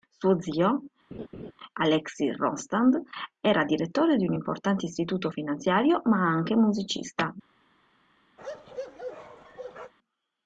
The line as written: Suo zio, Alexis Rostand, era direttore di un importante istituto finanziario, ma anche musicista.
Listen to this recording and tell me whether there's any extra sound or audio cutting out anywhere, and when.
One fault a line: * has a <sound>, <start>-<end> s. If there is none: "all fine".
* has a laugh, 1.1-1.5 s
* has a bark, 8.4-9.9 s